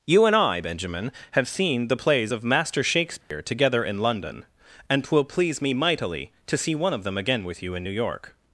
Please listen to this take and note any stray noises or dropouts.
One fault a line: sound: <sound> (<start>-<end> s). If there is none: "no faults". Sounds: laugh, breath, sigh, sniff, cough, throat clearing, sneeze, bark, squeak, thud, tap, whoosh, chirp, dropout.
sound: dropout (3.2-3.3 s)